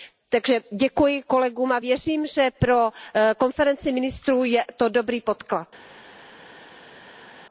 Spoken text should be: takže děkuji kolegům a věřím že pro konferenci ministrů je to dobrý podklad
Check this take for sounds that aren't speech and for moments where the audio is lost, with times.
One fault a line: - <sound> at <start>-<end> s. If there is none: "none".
none